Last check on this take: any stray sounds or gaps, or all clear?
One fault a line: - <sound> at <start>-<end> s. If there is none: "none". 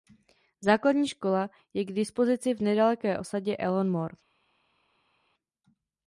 none